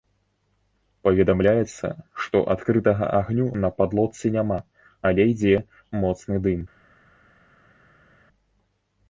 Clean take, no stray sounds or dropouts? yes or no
yes